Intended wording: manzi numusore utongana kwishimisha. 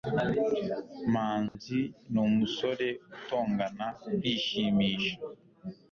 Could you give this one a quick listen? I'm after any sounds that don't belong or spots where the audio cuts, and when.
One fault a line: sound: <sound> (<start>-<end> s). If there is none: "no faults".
sound: dropout (1.5-1.6 s)